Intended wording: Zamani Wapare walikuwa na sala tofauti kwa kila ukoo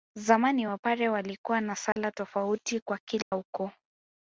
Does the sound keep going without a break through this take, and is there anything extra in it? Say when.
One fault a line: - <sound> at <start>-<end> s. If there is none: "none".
- dropout at 1.9-2.0 s
- dropout at 3.2-3.3 s